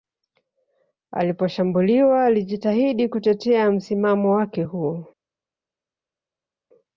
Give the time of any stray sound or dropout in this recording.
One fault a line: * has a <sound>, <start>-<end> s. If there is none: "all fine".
all fine